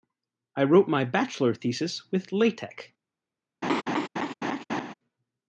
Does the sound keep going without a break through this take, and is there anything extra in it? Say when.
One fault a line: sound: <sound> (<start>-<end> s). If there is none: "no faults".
sound: laugh (3.6-4.9 s)